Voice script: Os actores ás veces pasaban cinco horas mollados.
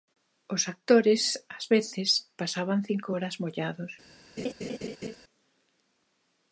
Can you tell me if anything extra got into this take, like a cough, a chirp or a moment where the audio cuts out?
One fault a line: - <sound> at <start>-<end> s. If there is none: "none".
- laugh at 4.4-5.2 s